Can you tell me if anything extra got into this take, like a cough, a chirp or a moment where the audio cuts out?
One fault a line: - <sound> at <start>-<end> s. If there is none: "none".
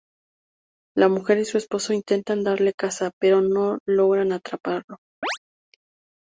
- chirp at 5.2-5.4 s